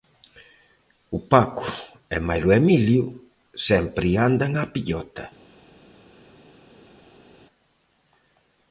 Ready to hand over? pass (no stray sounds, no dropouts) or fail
pass